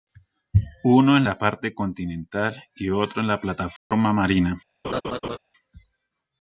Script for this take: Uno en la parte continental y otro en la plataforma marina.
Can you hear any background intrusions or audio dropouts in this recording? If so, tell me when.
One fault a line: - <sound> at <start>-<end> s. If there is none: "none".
- dropout at 3.8-3.9 s
- laugh at 4.8-5.4 s